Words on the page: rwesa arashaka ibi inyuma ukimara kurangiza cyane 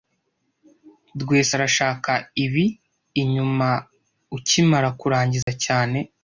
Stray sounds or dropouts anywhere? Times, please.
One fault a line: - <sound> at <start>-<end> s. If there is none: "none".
- dropout at 5.4-5.5 s